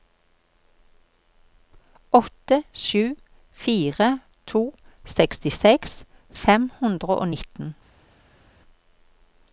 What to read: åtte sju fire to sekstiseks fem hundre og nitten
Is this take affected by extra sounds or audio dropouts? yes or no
no